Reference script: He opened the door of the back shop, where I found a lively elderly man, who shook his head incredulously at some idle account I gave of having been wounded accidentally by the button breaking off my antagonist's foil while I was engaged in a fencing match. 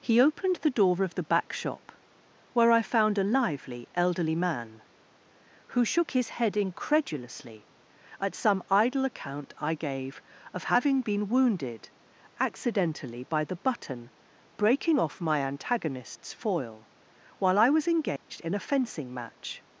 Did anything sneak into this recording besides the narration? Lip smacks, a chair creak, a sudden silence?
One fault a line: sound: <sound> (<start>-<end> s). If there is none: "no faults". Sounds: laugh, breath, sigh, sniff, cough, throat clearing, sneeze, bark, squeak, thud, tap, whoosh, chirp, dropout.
sound: dropout (18.2-18.3 s)